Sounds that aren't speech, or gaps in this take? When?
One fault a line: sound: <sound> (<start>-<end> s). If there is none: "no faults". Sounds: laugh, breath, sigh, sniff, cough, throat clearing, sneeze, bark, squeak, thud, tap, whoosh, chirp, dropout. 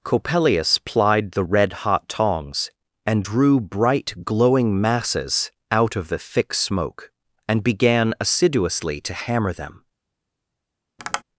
sound: tap (11.0-11.2 s)